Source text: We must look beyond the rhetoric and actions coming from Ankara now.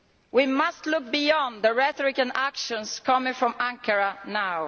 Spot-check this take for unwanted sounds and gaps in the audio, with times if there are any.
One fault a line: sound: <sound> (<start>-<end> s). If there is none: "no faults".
no faults